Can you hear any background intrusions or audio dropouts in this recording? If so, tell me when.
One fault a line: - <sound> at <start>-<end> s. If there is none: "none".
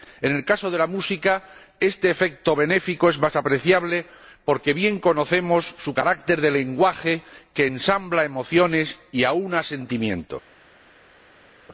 none